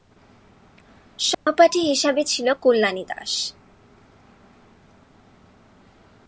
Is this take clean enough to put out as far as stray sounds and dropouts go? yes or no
no